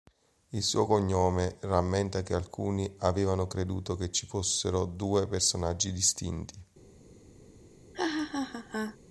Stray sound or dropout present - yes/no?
yes